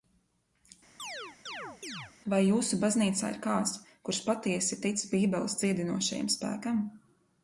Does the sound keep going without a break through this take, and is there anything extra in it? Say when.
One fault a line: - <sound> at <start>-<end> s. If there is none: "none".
- chirp at 1.0-2.1 s